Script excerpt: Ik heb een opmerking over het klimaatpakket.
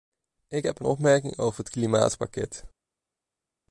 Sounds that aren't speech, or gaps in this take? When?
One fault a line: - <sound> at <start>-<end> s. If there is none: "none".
none